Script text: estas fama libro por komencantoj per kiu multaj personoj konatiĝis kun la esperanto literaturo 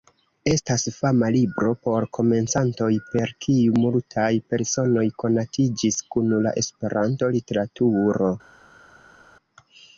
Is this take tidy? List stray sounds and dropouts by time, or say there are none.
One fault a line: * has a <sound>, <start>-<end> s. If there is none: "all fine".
all fine